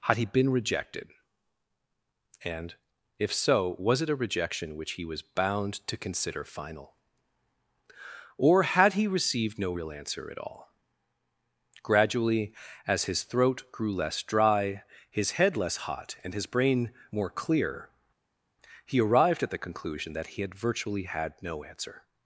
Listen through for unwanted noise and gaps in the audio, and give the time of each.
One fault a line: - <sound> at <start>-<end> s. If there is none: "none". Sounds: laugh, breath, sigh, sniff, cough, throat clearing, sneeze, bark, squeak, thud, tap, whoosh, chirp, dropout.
none